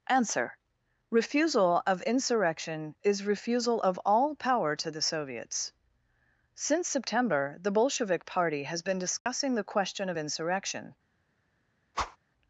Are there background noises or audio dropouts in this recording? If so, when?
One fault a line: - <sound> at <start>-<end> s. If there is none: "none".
- dropout at 9.2-9.3 s
- whoosh at 11.9-12.2 s